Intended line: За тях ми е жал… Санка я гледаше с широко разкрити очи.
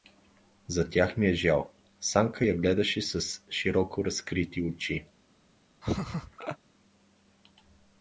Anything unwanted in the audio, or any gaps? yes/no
yes